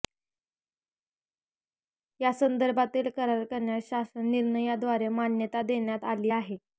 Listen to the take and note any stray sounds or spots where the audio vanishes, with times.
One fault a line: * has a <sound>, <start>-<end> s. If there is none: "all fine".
all fine